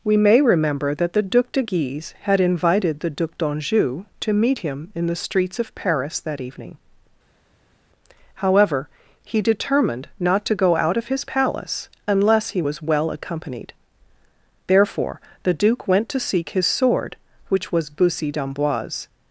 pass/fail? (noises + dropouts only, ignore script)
pass